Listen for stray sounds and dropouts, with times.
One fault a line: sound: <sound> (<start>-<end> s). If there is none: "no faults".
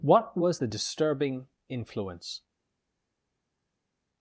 no faults